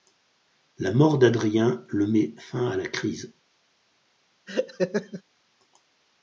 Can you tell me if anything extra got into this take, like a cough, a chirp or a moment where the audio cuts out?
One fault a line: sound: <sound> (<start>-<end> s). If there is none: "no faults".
sound: laugh (4.5-5.2 s)